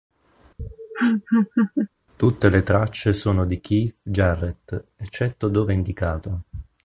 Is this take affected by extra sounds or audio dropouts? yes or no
yes